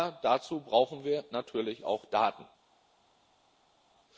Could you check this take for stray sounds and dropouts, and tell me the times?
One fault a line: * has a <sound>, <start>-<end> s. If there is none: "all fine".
all fine